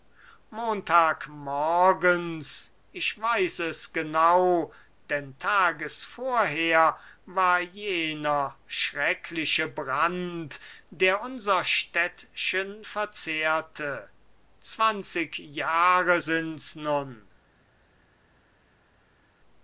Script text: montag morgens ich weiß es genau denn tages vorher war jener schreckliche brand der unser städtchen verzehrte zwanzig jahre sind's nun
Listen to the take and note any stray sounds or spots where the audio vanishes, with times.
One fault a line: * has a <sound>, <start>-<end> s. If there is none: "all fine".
all fine